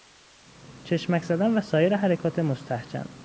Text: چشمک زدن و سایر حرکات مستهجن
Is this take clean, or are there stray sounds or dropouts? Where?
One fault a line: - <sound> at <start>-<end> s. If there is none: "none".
none